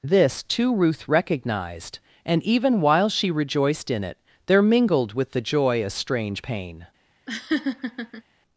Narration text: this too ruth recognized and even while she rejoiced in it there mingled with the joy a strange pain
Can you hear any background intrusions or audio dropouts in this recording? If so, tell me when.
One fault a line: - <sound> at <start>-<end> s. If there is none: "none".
- laugh at 7.3-8.2 s